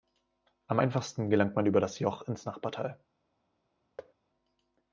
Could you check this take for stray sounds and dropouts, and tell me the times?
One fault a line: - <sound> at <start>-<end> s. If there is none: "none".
- thud at 4.0-4.1 s